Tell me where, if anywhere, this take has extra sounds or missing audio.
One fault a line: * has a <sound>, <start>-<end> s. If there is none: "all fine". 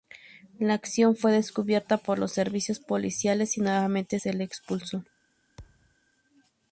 * has a thud, 5.6-6.0 s